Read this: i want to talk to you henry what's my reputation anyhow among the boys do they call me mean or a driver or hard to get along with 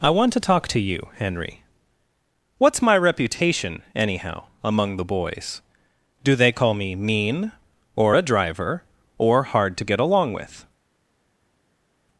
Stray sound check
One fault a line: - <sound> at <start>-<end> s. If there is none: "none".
none